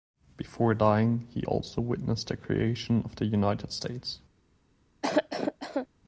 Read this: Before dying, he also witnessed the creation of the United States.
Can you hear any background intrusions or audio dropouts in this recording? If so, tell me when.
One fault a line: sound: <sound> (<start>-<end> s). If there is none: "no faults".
sound: cough (5.0-5.9 s)